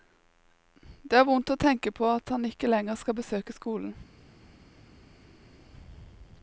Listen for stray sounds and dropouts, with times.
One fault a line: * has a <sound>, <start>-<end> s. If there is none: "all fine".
all fine